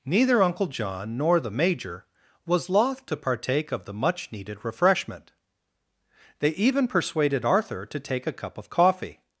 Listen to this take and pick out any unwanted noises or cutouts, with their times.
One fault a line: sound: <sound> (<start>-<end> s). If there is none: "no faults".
no faults